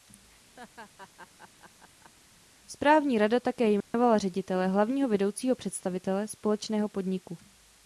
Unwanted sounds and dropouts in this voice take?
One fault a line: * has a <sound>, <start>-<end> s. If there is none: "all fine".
* has a laugh, 0.6-2.1 s
* has a dropout, 3.8-3.9 s